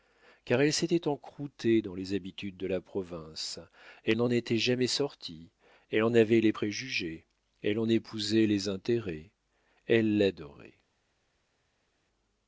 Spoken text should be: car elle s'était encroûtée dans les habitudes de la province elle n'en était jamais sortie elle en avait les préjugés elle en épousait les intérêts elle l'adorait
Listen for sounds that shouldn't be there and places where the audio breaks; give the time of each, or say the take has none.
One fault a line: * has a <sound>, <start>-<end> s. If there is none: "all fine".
all fine